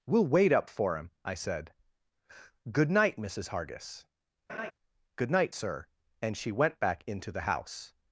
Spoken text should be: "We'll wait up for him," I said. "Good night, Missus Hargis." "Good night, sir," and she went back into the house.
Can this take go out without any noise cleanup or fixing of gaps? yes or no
no